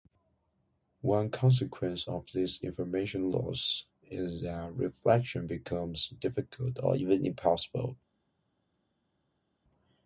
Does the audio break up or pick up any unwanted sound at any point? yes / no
no